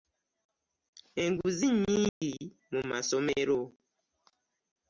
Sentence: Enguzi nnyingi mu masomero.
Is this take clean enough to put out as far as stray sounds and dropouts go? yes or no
no